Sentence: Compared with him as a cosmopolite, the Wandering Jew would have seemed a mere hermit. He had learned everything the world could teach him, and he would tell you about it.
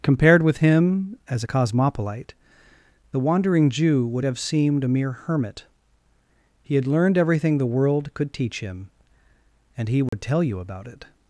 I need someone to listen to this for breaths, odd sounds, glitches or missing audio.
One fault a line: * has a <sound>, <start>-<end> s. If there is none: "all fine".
* has a dropout, 10.1-10.1 s